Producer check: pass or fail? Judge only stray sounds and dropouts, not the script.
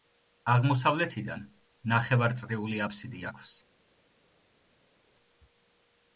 pass